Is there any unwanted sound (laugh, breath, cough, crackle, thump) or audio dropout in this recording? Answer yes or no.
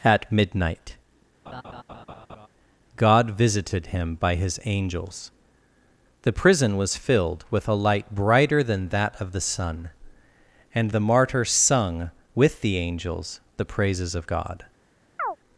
yes